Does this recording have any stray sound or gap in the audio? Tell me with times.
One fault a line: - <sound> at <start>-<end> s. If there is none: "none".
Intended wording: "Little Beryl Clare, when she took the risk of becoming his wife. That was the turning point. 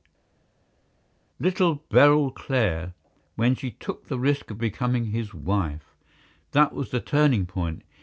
none